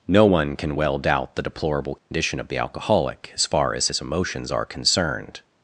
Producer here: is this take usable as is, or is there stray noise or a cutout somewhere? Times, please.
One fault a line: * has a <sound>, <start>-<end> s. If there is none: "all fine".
* has a dropout, 2.0-2.1 s